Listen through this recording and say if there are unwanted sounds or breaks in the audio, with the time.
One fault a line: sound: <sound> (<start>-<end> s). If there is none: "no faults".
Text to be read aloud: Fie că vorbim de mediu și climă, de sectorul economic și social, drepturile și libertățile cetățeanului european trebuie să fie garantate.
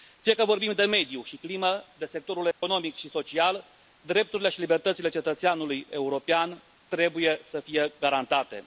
sound: dropout (2.5-2.6 s)